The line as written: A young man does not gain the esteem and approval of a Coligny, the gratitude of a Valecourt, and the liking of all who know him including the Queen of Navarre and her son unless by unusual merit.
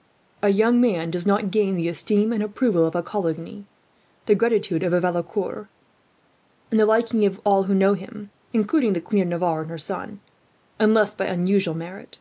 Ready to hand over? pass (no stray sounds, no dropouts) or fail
pass